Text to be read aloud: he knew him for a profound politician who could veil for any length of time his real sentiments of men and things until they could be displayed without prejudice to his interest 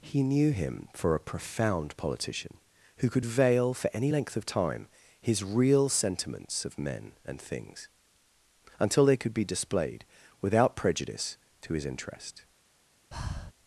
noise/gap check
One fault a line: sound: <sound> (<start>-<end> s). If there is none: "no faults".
sound: breath (13.1-13.5 s)